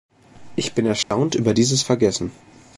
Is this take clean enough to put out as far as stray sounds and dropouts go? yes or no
no